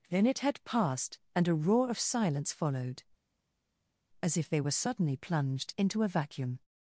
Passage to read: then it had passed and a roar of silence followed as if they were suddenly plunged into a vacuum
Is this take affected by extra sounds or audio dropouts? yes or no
no